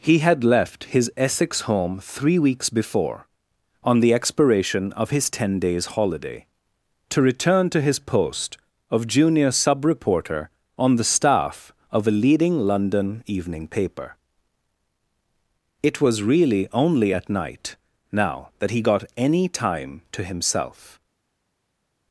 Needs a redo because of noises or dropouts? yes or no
no